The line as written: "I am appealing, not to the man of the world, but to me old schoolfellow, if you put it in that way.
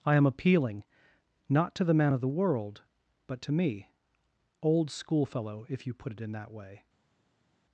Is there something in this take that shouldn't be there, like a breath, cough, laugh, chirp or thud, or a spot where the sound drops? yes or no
no